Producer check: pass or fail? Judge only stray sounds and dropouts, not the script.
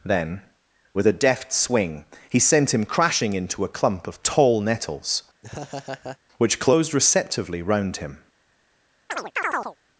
fail